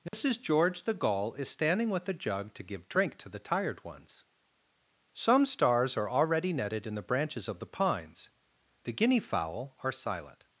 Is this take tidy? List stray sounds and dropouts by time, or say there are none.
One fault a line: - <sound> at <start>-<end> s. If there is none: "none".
- dropout at 0.1-0.1 s